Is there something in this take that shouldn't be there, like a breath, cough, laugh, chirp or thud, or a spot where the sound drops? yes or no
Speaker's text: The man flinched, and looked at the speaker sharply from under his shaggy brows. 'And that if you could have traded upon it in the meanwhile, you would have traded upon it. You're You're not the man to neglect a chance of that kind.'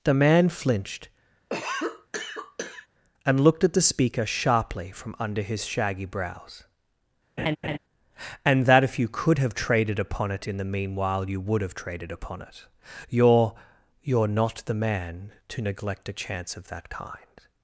yes